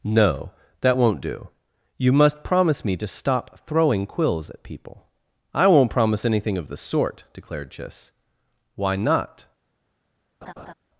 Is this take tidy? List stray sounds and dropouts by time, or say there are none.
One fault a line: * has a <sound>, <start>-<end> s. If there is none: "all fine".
* has a laugh, 10.4-10.7 s